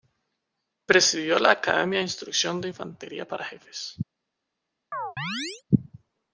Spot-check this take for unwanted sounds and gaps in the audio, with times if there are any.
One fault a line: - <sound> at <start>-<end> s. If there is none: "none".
- chirp at 4.9-5.6 s